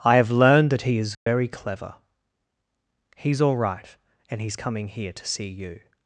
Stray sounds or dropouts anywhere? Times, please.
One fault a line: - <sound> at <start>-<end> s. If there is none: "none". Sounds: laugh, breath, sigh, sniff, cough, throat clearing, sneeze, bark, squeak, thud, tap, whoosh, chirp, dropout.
- dropout at 1.1-1.3 s